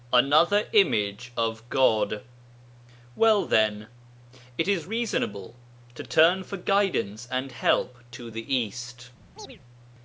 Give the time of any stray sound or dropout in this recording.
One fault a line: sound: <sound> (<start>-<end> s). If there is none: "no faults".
sound: chirp (9.4-9.6 s)